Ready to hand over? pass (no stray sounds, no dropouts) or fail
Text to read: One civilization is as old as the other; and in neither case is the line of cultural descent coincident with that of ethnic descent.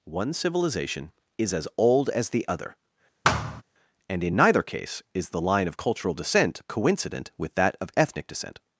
fail